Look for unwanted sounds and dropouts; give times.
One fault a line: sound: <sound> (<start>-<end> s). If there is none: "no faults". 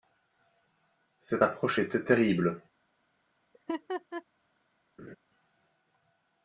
sound: laugh (3.5-4.2 s)
sound: laugh (5.0-5.2 s)